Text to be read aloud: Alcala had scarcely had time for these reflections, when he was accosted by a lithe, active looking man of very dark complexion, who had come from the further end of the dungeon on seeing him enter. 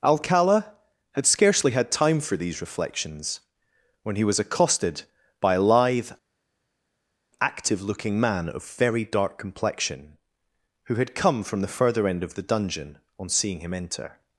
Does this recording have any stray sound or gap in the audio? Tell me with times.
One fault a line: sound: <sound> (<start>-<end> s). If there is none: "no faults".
no faults